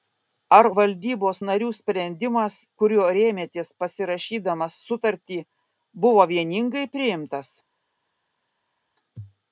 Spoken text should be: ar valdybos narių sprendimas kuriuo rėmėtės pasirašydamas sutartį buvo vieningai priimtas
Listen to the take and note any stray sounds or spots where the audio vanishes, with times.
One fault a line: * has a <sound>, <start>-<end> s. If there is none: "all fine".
all fine